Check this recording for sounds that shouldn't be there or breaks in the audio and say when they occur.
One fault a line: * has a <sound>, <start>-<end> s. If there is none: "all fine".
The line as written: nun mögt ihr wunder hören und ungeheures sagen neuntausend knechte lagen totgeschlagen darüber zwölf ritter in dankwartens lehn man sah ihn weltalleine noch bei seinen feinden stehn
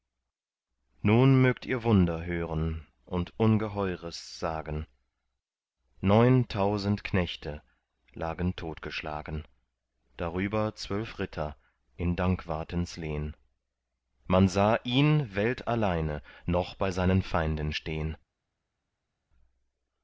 all fine